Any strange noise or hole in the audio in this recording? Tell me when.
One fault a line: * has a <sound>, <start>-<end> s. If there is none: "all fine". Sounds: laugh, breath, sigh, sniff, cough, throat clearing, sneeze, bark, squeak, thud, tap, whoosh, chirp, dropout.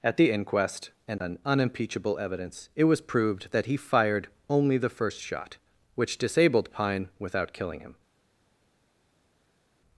all fine